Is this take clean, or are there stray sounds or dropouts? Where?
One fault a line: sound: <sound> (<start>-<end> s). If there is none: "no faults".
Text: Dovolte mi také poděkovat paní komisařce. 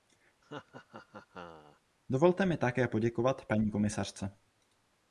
sound: laugh (0.4-1.8 s)